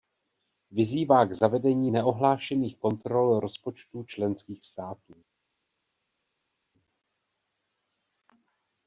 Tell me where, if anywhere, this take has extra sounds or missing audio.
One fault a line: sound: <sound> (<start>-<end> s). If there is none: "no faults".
no faults